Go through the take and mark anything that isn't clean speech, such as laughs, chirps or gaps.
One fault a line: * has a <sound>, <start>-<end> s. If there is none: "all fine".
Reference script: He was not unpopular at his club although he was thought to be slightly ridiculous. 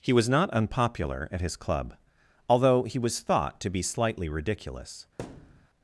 * has a thud, 5.2-5.7 s